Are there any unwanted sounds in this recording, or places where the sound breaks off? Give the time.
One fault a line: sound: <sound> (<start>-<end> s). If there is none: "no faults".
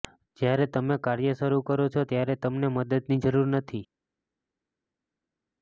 no faults